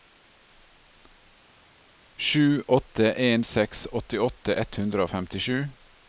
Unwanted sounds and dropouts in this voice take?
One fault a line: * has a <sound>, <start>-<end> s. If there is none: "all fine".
all fine